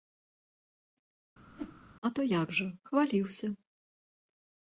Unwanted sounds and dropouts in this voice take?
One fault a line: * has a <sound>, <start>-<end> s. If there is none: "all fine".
* has a whoosh, 1.5-1.8 s